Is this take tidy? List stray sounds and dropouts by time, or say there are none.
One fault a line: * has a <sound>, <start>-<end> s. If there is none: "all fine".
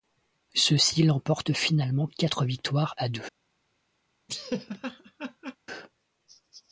* has a laugh, 4.3-5.6 s